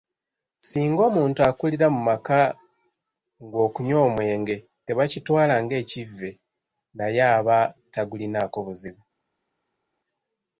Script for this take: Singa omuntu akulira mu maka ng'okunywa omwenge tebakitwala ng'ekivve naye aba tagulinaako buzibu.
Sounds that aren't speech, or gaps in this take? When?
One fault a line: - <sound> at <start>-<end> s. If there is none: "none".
none